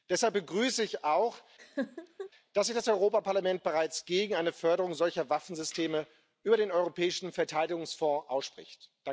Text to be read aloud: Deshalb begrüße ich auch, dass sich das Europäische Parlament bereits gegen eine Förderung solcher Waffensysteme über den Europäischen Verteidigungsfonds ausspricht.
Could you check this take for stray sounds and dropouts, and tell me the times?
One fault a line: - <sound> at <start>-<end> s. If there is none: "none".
- laugh at 1.6-2.3 s